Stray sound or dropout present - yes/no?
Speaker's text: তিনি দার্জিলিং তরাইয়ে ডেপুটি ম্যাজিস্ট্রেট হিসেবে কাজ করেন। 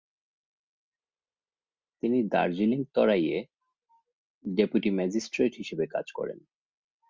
no